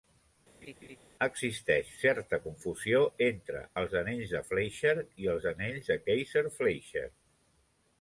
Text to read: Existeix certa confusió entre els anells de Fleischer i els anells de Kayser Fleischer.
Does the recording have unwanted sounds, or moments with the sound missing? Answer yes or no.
yes